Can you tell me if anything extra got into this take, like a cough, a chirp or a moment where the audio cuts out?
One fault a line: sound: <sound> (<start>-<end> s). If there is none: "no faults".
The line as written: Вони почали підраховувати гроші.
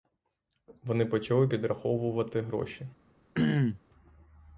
sound: throat clearing (3.4-3.8 s)